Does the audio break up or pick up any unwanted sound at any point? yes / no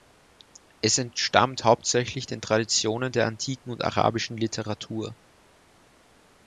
no